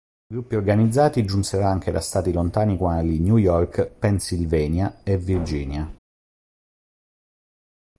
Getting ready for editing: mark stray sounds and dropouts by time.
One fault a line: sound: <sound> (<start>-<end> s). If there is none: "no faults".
no faults